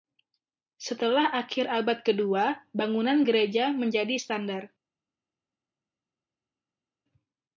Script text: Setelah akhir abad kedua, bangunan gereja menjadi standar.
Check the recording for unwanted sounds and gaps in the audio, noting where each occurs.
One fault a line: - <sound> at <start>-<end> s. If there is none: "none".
none